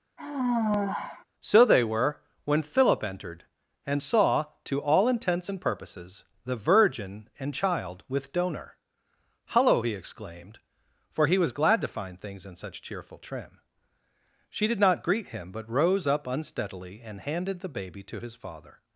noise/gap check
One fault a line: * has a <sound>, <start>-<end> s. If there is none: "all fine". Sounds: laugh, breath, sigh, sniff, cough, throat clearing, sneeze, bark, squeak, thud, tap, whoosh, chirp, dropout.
* has a sigh, 0.2-1.3 s